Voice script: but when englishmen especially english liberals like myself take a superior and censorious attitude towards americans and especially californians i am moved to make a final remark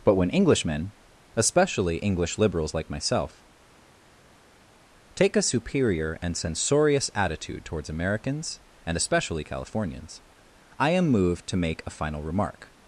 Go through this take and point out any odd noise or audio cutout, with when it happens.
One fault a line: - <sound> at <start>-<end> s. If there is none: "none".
none